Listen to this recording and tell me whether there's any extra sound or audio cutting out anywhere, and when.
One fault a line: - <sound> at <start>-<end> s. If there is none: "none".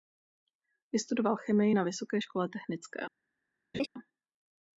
- laugh at 3.7-3.9 s